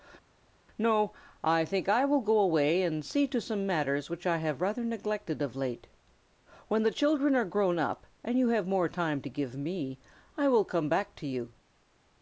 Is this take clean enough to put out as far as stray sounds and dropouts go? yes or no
yes